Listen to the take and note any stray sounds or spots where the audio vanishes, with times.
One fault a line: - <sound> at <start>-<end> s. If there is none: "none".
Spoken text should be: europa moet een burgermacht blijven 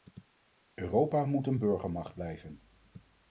none